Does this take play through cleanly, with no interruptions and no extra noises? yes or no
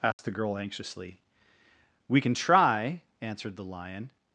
no